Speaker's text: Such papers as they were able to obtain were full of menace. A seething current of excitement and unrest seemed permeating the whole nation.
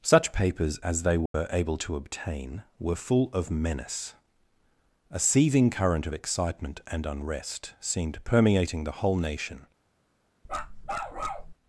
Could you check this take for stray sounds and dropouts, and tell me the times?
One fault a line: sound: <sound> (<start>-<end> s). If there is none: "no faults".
sound: dropout (1.3-1.3 s)
sound: bark (10.4-11.5 s)